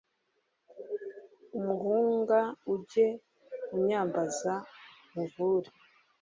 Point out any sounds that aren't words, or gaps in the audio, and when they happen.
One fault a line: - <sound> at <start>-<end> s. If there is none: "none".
none